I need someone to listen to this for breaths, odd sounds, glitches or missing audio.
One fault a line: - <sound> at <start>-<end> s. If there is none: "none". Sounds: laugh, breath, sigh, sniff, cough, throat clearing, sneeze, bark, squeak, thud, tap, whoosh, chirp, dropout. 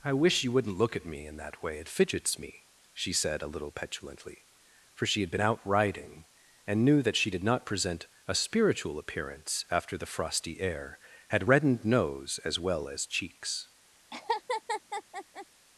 - laugh at 14.1-15.5 s